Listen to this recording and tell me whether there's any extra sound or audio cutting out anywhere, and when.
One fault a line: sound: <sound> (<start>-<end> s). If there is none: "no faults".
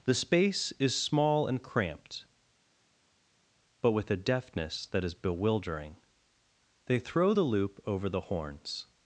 no faults